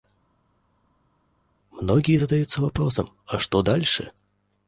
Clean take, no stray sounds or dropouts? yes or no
yes